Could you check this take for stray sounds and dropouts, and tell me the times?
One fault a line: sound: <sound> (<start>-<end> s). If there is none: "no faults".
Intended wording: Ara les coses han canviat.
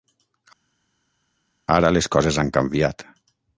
no faults